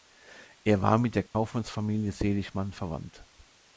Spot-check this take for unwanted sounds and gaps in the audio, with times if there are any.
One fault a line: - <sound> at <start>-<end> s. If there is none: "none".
- dropout at 1.3-1.3 s